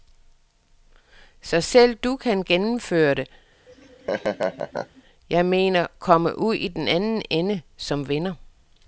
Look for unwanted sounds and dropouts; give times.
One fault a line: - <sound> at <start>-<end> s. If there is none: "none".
- laugh at 3.7-5.0 s